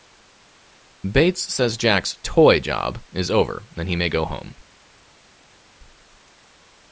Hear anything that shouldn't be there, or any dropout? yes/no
no